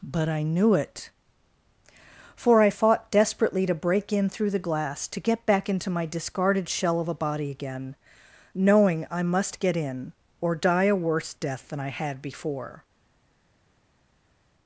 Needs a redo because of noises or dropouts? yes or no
no